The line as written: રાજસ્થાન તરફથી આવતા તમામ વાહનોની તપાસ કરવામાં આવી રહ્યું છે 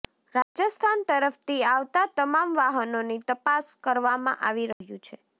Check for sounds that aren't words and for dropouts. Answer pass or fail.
fail